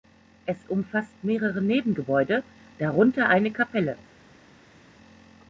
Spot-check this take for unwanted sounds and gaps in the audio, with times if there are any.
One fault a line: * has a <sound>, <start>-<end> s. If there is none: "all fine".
all fine